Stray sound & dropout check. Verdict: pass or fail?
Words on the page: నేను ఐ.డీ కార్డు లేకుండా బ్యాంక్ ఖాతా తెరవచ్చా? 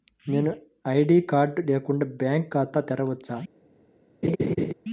fail